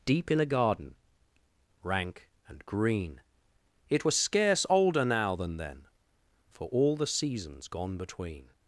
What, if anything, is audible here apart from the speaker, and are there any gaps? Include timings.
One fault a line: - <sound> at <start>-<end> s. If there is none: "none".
none